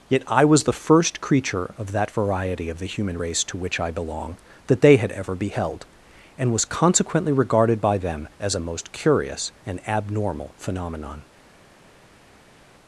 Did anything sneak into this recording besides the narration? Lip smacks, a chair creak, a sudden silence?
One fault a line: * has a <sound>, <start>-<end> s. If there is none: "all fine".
all fine